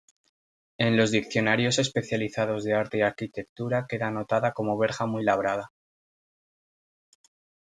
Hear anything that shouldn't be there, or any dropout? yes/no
no